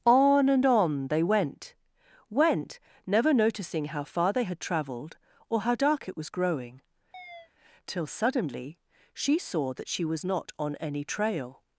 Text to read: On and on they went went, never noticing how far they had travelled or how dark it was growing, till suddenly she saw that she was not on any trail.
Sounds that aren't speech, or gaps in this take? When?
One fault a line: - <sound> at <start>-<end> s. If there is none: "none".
- chirp at 7.1-7.5 s